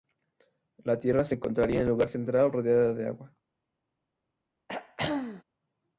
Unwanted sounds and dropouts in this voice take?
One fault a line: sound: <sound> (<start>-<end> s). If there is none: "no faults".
sound: throat clearing (4.7-5.4 s)